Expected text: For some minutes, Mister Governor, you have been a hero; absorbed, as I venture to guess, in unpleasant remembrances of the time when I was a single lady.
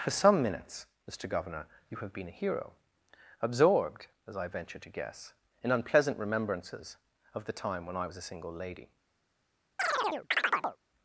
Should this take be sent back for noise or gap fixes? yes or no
yes